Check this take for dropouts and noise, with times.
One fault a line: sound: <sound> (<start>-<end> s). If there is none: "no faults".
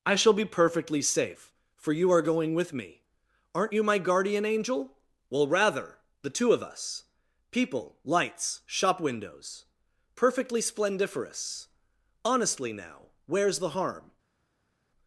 no faults